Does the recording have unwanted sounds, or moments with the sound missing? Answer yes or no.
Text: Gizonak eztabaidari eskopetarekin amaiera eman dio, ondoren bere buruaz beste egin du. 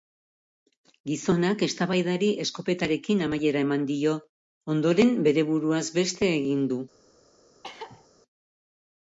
yes